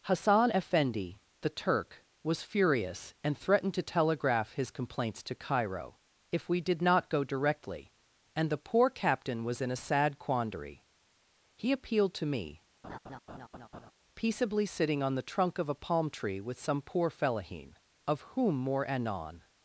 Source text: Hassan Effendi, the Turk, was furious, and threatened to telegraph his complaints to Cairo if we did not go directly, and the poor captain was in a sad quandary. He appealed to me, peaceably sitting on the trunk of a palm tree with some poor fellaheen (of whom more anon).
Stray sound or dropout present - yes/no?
yes